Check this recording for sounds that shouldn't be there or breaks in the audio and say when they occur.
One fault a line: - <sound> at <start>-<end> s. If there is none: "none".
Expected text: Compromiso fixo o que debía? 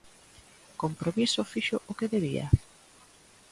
none